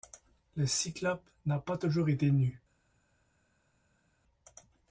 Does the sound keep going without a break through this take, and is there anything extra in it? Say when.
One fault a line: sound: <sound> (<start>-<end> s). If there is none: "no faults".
no faults